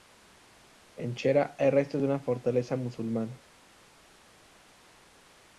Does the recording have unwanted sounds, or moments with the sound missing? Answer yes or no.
no